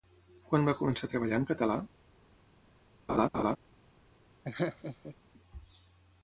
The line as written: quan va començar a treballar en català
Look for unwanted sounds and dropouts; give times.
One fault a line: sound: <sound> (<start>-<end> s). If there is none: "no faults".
sound: laugh (3.1-3.6 s)
sound: laugh (4.4-5.2 s)